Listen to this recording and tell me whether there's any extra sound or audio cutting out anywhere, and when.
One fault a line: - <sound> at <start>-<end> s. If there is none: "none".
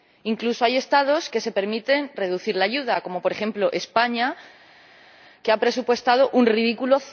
none